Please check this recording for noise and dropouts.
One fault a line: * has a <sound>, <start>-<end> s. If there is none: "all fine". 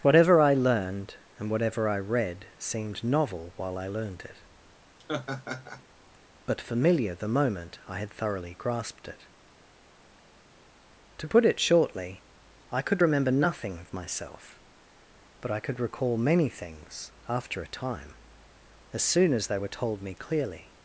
* has a laugh, 5.0-5.8 s